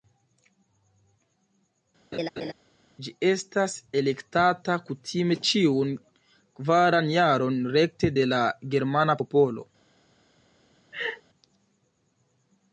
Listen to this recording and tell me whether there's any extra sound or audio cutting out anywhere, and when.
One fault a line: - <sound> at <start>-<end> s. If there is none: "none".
- laugh at 2.1-2.5 s
- laugh at 10.9-11.2 s